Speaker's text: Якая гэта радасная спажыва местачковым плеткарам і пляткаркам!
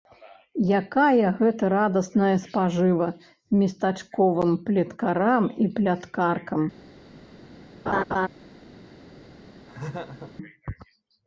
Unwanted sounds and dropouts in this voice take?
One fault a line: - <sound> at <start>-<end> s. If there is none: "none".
- laugh at 7.9-8.3 s
- laugh at 9.7-10.3 s